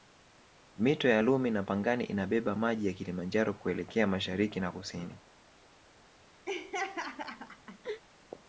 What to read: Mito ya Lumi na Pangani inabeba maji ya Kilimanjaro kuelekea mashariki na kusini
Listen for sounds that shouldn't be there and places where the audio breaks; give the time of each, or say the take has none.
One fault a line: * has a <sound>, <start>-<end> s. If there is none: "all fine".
* has a laugh, 6.5-8.0 s